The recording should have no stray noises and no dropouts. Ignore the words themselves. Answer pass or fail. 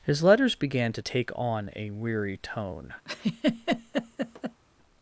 fail